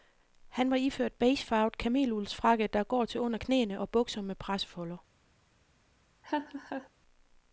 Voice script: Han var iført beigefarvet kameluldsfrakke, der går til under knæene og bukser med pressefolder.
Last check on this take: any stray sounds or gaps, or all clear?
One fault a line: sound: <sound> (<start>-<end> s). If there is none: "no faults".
sound: laugh (6.2-6.9 s)